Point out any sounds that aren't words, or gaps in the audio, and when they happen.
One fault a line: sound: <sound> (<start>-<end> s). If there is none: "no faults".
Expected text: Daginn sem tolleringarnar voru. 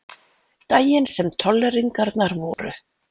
sound: dropout (2.5-2.6 s)